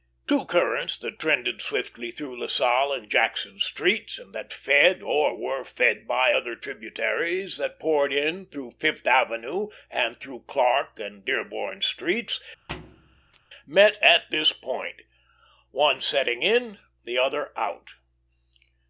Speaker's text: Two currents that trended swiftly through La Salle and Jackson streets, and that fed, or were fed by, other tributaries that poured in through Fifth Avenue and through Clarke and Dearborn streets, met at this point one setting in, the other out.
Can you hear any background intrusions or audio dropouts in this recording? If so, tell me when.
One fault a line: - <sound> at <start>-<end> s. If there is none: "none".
- thud at 12.7-13.4 s